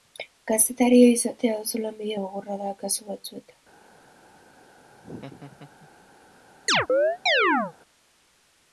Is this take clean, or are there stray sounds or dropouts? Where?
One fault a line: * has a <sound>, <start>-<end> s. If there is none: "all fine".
* has a laugh, 4.9-5.9 s
* has a chirp, 6.7-7.7 s